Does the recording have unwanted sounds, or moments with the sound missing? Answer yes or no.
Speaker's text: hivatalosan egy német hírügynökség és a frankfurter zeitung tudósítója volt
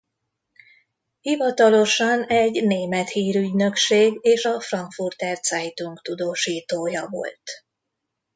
no